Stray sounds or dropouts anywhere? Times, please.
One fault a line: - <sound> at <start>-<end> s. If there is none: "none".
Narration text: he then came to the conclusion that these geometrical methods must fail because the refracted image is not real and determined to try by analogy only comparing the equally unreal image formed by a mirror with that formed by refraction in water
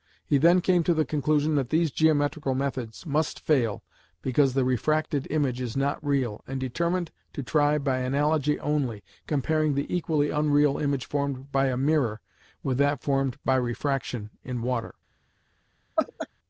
- laugh at 16.0-16.3 s